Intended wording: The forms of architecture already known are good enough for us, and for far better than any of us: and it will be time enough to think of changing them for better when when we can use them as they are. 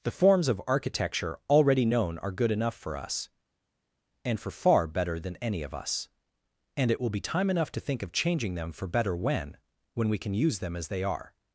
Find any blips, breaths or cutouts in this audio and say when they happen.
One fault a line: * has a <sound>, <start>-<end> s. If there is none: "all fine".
all fine